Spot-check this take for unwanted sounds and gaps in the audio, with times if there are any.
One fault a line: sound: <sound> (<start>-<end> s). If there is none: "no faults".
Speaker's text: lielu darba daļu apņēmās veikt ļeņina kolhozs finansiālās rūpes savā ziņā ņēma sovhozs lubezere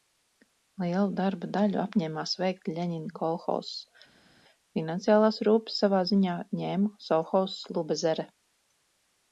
no faults